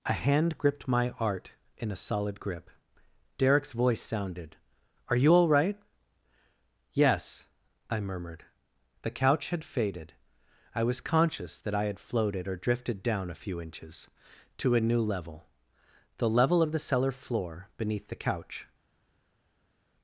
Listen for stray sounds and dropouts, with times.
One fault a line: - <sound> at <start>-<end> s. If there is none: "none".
none